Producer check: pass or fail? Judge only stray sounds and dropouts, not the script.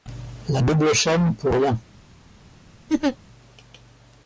fail